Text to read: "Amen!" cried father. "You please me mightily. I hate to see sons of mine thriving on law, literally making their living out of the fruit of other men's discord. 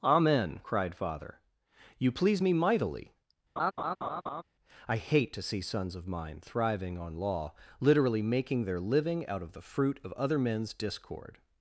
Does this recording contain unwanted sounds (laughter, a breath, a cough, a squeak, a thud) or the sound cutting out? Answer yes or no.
yes